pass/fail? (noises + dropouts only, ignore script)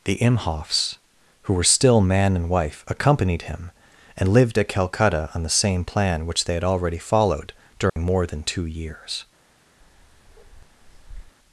fail